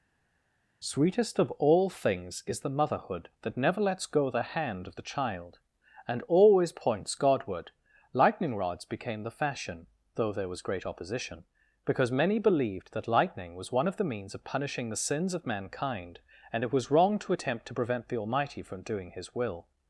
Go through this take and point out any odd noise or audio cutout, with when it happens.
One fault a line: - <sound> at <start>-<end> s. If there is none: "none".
none